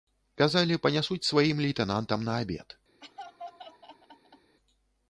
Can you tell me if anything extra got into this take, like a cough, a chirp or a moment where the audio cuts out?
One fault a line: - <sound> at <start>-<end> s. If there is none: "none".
- laugh at 3.0-4.6 s